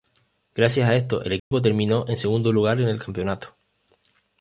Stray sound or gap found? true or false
true